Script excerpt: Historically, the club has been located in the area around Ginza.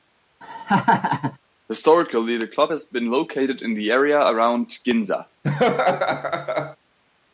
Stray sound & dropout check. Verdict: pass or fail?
fail